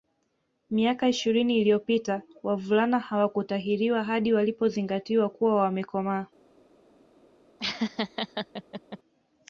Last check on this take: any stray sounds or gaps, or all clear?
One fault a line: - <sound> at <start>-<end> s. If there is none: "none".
- laugh at 7.6-9.0 s